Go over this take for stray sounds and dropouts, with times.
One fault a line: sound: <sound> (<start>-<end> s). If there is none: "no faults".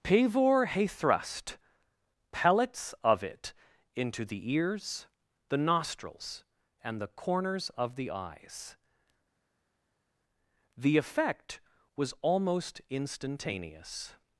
no faults